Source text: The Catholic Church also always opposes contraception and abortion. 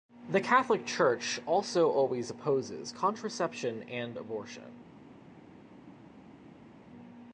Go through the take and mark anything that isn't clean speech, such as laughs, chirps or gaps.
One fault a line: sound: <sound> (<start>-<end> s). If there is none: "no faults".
no faults